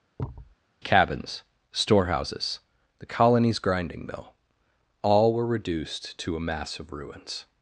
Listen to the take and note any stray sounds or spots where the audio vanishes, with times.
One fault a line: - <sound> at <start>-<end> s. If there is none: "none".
- thud at 0.2-0.6 s